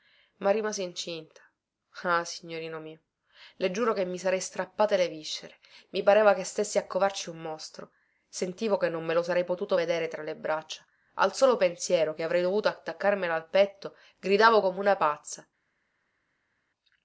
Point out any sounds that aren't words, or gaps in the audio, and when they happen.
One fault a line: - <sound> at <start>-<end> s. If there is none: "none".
none